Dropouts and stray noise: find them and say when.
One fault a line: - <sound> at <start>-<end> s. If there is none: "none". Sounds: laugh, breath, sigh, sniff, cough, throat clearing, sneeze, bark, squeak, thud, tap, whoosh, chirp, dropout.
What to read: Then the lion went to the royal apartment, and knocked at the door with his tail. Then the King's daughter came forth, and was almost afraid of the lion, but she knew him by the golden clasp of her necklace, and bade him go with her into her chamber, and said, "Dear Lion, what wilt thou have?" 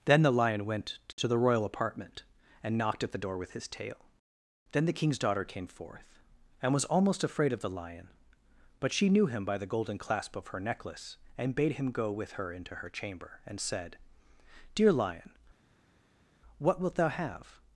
none